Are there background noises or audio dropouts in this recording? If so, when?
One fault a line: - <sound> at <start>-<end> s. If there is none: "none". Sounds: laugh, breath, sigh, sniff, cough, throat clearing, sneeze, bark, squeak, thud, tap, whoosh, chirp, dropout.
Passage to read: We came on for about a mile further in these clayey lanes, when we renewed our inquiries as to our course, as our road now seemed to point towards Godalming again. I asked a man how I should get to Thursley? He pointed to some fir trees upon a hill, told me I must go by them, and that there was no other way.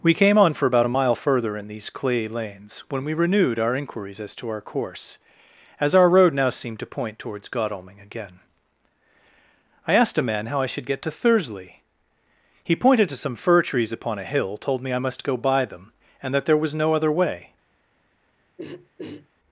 - throat clearing at 18.6-19.3 s